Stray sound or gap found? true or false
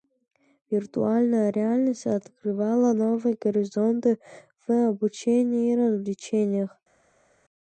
false